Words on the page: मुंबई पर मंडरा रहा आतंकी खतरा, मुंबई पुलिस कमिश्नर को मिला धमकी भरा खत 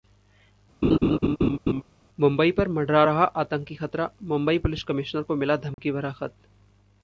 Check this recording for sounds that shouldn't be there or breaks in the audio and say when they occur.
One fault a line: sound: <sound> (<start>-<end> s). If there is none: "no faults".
sound: laugh (0.8-1.8 s)
sound: dropout (5.7-5.8 s)